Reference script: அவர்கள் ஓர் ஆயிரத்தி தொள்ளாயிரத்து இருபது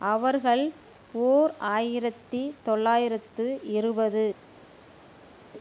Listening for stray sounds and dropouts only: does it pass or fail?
pass